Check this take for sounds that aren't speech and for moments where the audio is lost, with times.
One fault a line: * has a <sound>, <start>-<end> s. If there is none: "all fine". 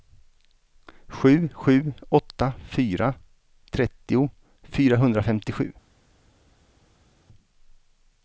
all fine